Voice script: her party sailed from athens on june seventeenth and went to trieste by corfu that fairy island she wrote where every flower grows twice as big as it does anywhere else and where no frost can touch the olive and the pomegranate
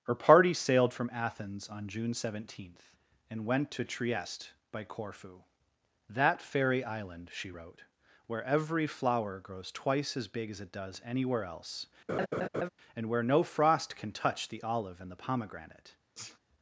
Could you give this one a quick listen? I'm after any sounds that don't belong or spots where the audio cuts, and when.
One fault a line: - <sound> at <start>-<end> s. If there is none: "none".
- laugh at 12.1-12.7 s
- sneeze at 16.1-16.4 s